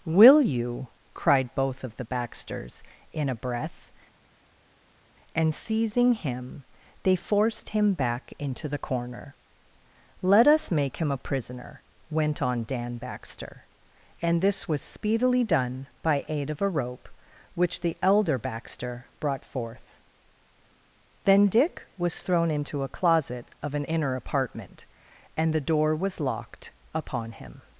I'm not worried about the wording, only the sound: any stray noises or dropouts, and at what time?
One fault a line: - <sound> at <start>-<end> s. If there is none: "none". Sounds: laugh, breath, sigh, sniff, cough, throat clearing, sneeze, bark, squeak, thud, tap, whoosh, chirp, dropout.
none